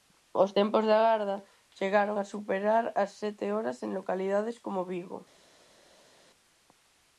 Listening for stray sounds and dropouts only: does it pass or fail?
pass